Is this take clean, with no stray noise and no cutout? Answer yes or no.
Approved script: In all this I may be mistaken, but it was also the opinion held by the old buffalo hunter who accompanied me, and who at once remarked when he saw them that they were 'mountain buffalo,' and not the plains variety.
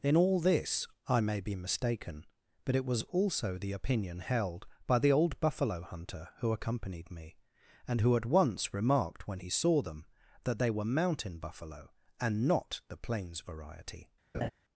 no